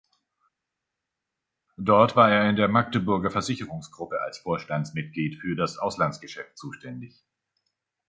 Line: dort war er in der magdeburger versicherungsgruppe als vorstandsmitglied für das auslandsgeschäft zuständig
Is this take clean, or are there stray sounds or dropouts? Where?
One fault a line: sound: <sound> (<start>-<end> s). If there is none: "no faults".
no faults